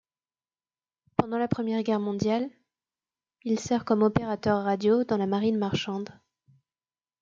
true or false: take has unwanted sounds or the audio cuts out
false